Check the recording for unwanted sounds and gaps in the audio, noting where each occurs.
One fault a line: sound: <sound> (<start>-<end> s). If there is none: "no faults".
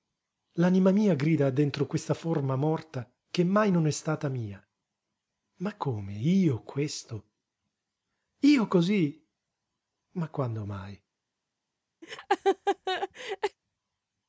sound: laugh (12.0-13.6 s)